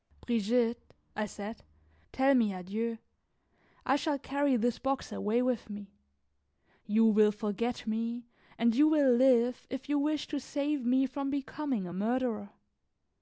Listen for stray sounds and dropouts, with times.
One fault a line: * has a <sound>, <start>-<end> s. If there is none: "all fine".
all fine